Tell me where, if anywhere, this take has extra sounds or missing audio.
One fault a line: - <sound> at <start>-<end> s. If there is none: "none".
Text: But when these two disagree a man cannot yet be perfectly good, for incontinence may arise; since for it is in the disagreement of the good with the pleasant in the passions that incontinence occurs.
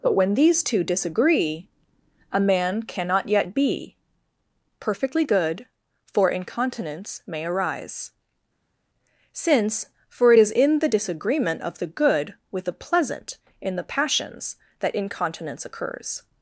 none